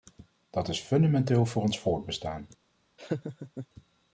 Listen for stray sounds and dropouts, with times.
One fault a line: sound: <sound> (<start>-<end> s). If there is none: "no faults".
sound: laugh (3.0-3.7 s)